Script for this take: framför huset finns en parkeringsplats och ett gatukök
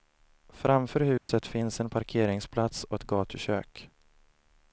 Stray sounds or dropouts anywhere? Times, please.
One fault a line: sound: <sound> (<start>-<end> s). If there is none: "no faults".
sound: dropout (1.2-1.3 s)